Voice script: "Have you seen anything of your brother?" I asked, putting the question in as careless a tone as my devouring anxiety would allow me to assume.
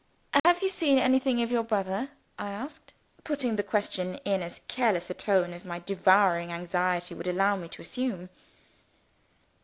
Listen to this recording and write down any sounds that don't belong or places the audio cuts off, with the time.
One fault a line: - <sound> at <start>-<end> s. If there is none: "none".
- dropout at 0.4-0.4 s